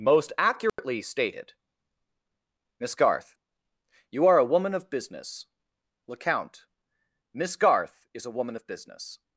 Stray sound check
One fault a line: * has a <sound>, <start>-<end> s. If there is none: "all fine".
* has a dropout, 0.7-0.8 s